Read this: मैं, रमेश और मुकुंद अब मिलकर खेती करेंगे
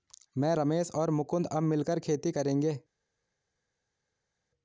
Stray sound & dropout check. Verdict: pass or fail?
pass